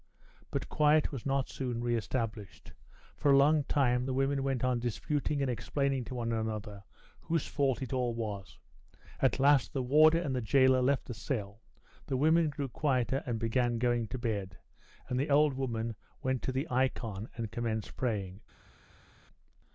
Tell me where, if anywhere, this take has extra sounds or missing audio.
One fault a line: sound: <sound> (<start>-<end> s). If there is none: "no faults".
no faults